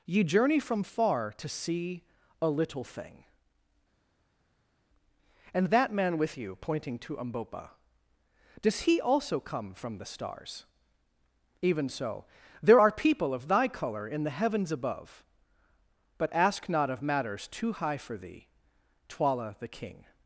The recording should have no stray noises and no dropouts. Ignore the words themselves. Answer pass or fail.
pass